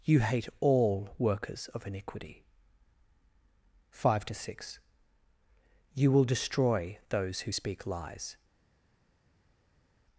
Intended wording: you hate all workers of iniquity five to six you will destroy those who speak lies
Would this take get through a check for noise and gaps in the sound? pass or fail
pass